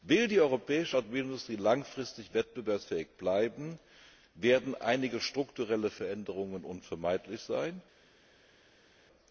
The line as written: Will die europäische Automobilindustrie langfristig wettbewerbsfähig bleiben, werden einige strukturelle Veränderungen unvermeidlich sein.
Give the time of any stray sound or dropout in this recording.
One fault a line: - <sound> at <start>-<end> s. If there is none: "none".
none